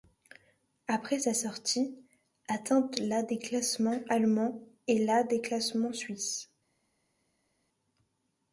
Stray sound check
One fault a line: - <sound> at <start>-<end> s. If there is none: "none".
none